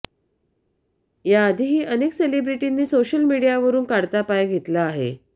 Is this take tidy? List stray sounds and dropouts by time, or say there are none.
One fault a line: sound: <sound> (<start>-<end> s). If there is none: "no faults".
no faults